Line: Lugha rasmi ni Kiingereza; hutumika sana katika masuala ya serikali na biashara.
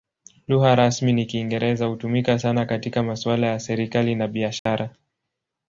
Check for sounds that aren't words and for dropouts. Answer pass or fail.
fail